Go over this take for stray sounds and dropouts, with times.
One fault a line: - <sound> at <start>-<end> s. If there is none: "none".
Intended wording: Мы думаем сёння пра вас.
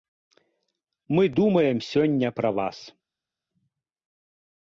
none